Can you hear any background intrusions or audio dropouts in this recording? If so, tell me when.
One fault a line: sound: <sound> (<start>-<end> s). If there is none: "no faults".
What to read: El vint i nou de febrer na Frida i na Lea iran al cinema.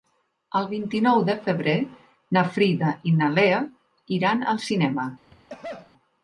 sound: cough (5.3-5.9 s)